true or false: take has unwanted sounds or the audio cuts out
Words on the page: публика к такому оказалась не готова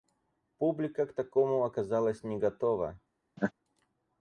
true